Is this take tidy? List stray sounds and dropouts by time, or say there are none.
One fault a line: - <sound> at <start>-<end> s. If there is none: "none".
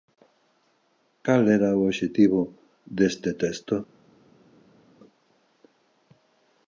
none